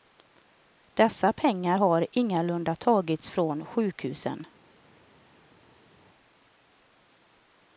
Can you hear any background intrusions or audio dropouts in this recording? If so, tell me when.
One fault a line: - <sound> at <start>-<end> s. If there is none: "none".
none